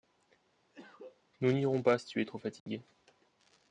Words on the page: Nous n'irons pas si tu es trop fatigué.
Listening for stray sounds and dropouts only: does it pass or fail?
fail